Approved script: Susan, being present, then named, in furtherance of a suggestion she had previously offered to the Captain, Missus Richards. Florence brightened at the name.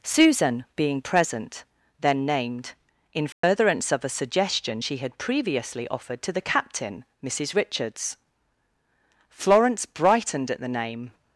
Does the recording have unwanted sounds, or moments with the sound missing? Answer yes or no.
yes